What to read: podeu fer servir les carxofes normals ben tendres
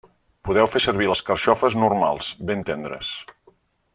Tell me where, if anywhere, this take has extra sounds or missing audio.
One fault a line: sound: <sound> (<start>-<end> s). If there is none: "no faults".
no faults